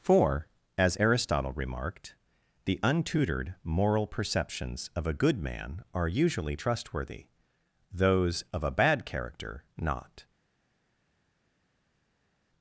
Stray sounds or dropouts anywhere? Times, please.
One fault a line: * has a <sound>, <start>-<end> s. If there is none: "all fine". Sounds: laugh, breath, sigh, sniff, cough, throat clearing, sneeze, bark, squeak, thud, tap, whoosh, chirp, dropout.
all fine